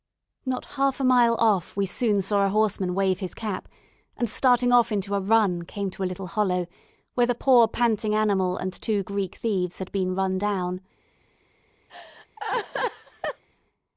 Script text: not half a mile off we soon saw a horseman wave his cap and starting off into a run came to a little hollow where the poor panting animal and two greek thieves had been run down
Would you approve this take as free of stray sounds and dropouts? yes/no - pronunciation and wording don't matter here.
no